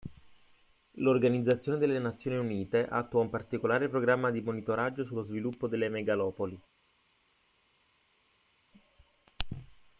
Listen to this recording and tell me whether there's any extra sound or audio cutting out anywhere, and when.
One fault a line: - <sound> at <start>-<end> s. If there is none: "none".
none